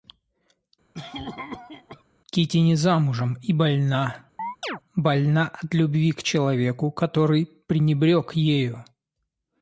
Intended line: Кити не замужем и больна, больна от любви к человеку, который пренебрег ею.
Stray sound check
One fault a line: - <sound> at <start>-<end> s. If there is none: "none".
- cough at 0.9-2.0 s
- chirp at 4.4-4.8 s